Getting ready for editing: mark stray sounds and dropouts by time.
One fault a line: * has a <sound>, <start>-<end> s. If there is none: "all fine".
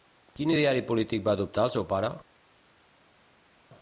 all fine